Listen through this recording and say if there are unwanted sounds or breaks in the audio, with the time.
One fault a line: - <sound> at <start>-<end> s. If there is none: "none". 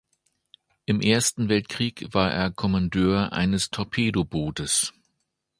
none